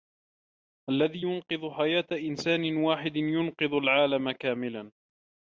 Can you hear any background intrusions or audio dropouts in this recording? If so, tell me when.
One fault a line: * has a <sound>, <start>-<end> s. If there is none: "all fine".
all fine